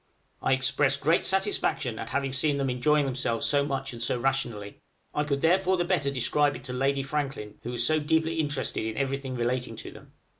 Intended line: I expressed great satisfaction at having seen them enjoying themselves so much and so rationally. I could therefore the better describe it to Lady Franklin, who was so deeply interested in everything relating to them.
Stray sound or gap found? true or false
false